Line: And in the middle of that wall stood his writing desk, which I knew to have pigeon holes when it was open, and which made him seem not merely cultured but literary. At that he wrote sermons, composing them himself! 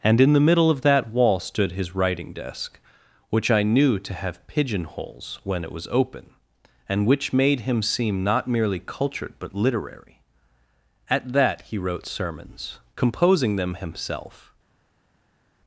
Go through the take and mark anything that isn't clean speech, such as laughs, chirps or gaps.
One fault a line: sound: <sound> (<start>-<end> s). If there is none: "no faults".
no faults